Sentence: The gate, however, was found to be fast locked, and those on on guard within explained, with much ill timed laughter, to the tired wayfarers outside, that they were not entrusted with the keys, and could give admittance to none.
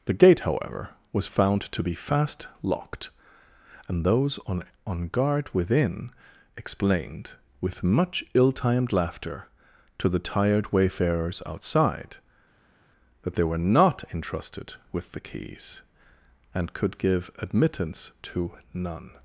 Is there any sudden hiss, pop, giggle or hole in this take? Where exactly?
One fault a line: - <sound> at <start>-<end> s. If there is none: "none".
none